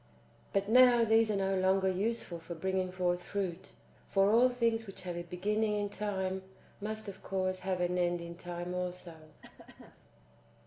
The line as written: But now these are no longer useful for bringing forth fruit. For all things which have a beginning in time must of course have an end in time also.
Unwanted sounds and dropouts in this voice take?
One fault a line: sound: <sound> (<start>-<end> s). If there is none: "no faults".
sound: cough (9.4-10.0 s)